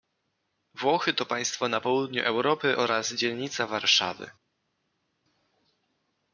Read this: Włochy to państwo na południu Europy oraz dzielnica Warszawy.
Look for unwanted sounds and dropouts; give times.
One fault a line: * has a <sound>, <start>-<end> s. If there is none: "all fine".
all fine